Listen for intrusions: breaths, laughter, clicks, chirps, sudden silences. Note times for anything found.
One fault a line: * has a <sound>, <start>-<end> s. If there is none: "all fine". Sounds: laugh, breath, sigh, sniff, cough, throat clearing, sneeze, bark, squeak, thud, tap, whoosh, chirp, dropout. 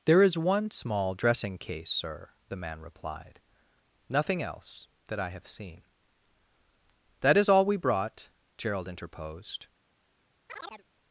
* has a chirp, 10.5-10.8 s